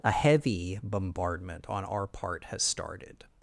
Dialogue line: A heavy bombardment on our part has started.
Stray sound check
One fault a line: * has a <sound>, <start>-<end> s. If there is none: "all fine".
all fine